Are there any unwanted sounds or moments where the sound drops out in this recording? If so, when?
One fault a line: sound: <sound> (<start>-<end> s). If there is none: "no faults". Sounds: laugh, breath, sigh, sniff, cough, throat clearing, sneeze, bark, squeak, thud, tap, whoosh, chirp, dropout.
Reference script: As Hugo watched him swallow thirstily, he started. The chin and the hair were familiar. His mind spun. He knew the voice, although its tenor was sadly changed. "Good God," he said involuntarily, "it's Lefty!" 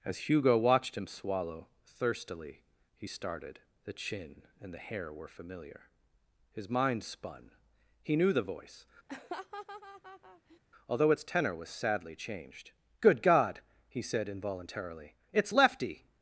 sound: laugh (9.1-10.6 s)